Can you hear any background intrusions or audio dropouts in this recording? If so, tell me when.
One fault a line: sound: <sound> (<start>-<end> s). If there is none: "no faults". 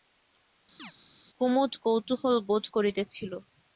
sound: chirp (0.8-0.9 s)